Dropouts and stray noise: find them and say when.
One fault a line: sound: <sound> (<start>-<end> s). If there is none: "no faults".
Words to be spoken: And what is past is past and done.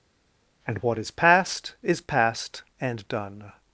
no faults